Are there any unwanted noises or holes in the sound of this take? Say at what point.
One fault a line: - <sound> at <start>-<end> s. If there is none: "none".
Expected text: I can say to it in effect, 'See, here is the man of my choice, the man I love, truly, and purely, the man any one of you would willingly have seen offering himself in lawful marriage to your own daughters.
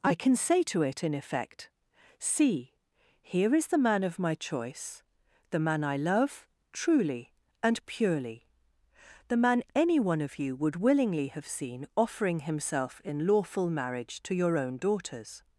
none